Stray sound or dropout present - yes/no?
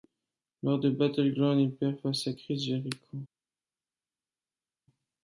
no